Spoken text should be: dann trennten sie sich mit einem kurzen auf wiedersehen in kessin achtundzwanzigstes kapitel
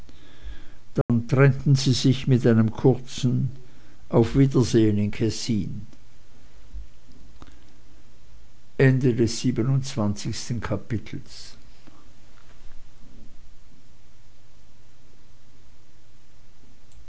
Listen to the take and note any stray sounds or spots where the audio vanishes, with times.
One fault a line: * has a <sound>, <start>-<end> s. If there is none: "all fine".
* has a dropout, 1.0-1.1 s